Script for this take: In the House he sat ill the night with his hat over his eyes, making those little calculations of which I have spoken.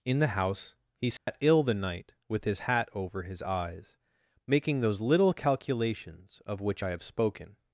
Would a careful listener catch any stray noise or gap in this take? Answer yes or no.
yes